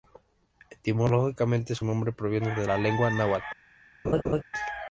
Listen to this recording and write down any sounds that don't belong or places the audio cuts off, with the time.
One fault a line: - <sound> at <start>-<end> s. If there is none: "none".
- laugh at 4.0-4.4 s